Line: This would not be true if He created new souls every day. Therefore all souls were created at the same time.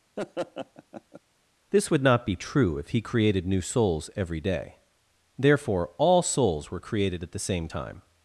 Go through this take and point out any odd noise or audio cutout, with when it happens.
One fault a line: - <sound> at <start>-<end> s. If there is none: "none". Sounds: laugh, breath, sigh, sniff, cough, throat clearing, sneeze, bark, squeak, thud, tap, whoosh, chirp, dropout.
- laugh at 0.2-1.2 s